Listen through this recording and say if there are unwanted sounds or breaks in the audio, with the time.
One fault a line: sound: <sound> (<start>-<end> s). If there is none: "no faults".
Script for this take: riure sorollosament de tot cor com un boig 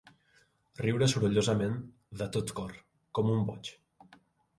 no faults